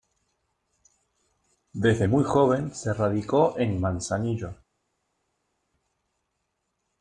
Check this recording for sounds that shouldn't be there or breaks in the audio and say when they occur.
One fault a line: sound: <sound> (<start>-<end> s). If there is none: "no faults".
no faults